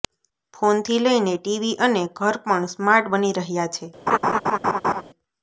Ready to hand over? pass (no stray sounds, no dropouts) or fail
fail